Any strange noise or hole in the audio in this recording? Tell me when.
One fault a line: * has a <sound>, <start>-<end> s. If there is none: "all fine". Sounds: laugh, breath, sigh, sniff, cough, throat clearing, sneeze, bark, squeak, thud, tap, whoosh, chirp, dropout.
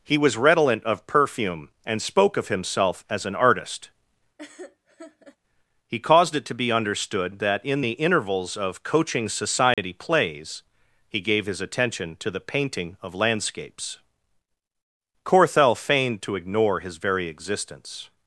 * has a laugh, 4.4-5.4 s
* has a dropout, 9.7-9.8 s